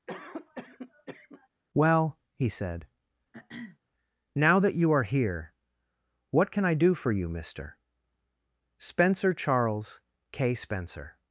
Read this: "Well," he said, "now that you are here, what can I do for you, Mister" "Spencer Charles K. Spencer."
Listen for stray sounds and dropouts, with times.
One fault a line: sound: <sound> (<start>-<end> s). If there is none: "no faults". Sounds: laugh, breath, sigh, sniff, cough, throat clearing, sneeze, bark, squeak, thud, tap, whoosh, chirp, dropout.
sound: cough (0.1-1.5 s)
sound: throat clearing (3.3-3.8 s)